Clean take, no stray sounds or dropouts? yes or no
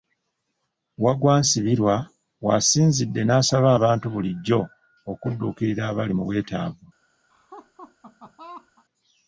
no